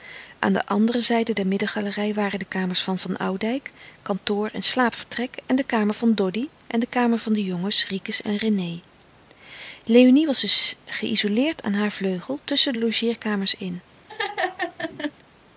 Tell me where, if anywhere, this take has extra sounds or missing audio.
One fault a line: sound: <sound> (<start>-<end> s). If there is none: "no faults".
sound: laugh (14.1-15.1 s)